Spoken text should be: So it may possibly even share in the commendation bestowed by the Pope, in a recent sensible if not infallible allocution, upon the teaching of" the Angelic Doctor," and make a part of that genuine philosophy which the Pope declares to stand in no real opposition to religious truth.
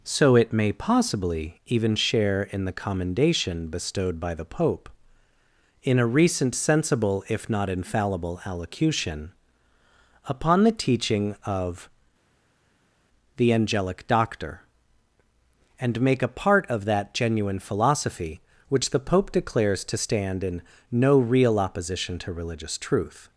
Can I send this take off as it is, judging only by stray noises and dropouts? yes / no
yes